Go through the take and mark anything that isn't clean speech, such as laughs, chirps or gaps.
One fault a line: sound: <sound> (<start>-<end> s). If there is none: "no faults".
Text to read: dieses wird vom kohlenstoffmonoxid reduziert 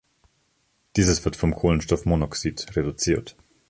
no faults